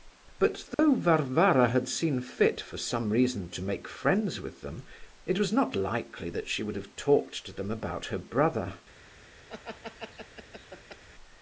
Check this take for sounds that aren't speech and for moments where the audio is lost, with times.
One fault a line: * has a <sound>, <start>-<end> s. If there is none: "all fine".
* has a dropout, 0.7-0.8 s
* has a laugh, 9.5-11.0 s